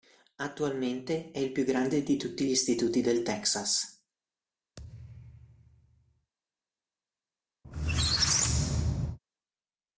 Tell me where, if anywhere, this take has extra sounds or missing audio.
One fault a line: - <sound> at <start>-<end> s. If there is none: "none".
- thud at 4.8-6.3 s
- squeak at 7.6-9.2 s